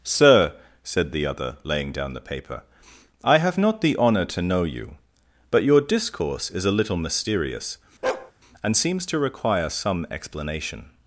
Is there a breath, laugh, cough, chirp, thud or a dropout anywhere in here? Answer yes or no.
yes